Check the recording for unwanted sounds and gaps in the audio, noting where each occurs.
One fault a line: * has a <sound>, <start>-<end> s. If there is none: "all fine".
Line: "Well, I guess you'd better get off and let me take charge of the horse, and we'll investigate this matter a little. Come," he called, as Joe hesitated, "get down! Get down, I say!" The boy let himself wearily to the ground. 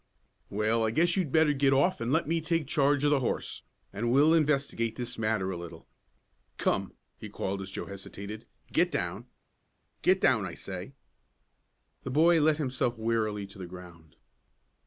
all fine